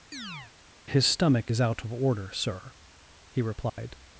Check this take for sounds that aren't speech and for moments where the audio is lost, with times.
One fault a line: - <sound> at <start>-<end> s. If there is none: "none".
- chirp at 0.1-0.5 s
- dropout at 3.7-3.8 s